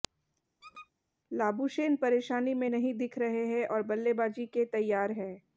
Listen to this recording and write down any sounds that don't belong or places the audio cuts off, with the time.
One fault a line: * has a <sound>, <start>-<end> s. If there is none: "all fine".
* has a squeak, 0.6-0.9 s